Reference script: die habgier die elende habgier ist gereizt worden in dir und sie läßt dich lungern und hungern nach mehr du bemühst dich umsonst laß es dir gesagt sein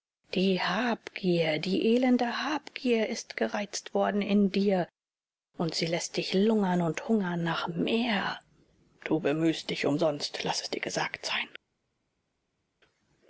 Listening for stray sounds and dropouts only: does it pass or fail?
pass